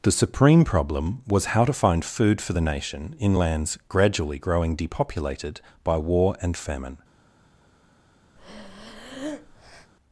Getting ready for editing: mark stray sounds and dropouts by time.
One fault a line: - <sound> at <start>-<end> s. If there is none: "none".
- breath at 8.4-9.9 s